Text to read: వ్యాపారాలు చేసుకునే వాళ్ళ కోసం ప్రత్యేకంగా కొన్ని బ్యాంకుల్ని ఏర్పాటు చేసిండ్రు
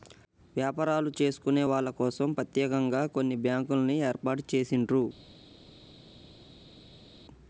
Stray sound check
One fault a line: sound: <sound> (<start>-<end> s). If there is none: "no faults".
no faults